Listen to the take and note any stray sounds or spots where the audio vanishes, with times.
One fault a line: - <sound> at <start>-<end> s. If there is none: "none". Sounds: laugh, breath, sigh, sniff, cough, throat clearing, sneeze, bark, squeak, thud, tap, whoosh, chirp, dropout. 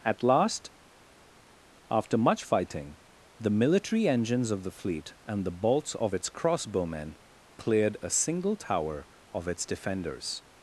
none